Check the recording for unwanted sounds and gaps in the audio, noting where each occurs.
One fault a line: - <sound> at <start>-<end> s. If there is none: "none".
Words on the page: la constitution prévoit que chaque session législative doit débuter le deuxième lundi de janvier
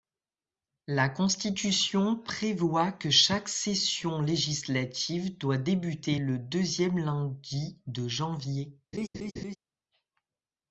- laugh at 8.9-9.6 s